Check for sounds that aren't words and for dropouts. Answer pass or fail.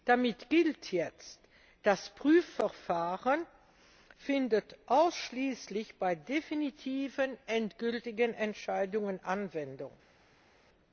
pass